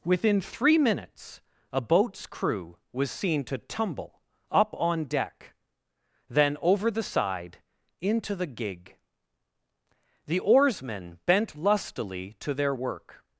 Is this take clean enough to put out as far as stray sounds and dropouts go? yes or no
yes